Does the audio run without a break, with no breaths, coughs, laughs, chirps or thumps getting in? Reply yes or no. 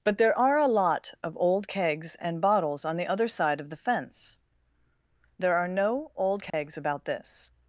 no